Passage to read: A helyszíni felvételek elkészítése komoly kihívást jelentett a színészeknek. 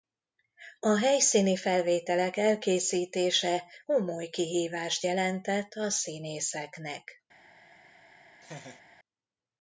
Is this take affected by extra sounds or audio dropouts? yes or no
yes